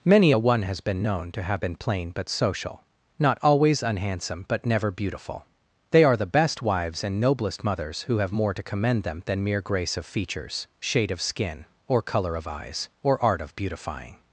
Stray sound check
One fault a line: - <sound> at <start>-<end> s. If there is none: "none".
none